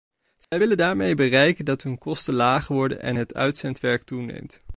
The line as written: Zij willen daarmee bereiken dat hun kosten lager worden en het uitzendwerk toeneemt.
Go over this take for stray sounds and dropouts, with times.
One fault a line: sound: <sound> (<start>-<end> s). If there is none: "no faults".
sound: dropout (0.4-0.5 s)